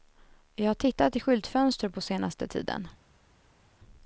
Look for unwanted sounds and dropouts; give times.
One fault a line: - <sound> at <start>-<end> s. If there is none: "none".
none